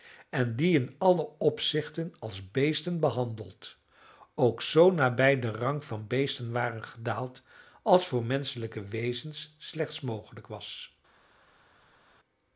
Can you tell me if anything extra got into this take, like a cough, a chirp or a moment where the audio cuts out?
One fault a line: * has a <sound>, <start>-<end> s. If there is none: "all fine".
all fine